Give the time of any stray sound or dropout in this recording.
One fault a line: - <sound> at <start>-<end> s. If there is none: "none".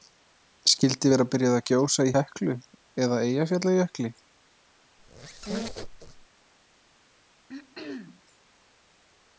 - squeak at 5.0-6.3 s
- throat clearing at 7.5-8.2 s